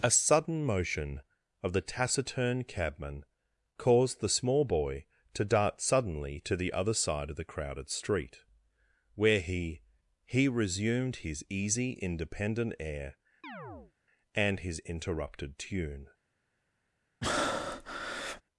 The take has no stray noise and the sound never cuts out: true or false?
false